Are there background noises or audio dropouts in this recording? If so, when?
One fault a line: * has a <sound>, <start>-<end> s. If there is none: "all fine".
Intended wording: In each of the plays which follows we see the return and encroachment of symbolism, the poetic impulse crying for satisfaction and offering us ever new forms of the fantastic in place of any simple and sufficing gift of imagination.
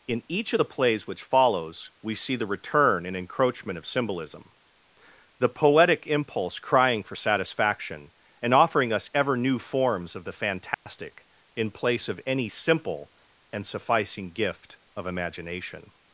* has a dropout, 10.7-10.9 s